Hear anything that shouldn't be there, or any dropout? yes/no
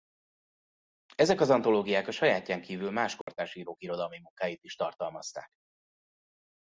yes